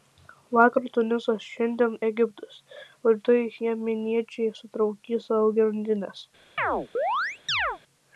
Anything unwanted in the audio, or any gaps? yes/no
yes